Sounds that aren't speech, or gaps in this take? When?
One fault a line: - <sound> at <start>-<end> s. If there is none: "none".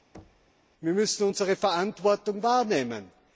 - thud at 0.1-0.5 s